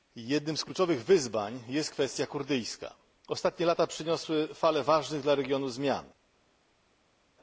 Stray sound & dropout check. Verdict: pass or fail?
pass